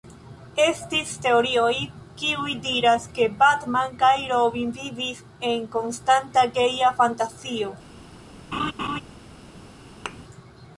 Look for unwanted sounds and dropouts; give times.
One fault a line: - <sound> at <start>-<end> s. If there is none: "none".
- laugh at 8.5-9.0 s
- thud at 10.1-10.2 s